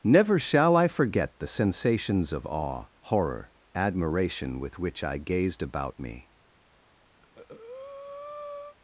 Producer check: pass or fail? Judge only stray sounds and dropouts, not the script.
fail